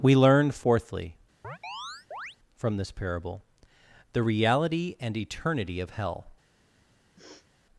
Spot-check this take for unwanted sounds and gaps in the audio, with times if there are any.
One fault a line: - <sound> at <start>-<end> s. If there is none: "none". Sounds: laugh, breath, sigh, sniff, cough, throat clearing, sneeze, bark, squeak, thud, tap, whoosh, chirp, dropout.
- chirp at 1.4-2.4 s
- sniff at 7.2-7.5 s